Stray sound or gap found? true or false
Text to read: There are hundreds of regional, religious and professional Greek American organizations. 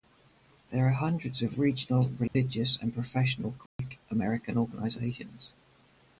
true